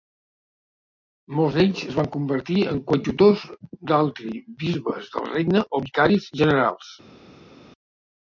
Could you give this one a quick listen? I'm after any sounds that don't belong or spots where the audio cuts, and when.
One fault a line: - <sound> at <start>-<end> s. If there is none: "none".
none